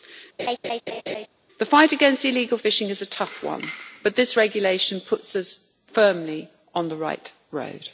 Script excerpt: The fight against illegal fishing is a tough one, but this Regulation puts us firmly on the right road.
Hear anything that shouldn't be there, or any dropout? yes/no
yes